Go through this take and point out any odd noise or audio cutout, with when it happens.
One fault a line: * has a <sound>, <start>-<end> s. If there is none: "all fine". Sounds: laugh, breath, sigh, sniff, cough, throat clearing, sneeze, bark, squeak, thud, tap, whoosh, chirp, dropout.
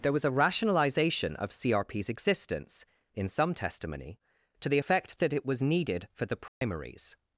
* has a dropout, 6.5-6.6 s